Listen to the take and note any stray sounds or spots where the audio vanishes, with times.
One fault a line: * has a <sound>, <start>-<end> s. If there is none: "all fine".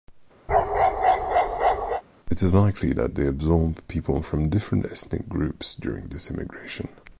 * has a bark, 0.5-2.0 s